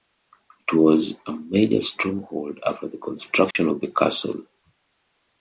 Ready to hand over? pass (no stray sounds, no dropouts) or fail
fail